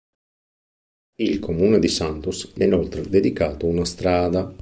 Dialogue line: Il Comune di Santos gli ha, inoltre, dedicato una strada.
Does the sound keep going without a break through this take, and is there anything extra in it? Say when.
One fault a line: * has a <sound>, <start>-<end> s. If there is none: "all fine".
all fine